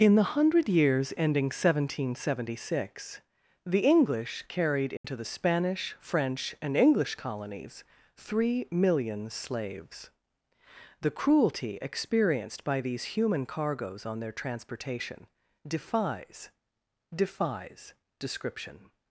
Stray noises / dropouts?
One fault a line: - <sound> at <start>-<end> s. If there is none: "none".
- dropout at 5.0-5.0 s